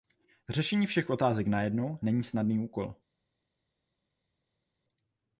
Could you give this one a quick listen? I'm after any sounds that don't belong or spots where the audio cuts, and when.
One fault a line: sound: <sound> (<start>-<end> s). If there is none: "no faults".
no faults